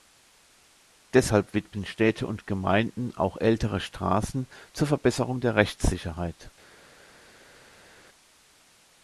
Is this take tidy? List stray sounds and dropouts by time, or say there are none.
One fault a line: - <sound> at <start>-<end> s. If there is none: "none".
none